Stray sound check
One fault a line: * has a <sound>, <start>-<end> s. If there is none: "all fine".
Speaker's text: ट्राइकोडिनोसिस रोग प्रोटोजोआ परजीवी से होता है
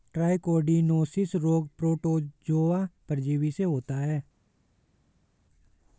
all fine